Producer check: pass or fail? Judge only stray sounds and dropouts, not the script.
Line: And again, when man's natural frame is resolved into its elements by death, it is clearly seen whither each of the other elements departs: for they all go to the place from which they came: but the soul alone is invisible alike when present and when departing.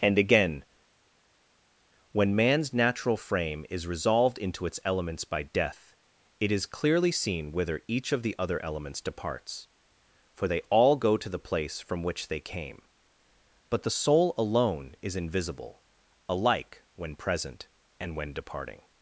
pass